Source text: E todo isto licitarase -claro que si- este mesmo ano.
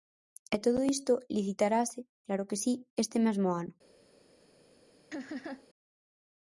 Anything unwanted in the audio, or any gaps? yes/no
yes